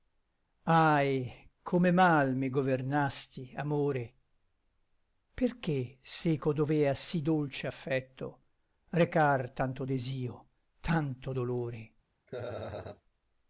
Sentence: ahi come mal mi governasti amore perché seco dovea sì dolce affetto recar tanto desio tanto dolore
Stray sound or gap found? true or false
true